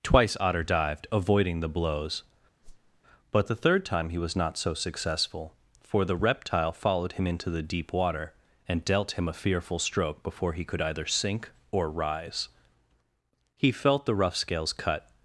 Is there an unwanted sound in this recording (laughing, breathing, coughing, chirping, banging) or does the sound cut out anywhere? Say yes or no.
yes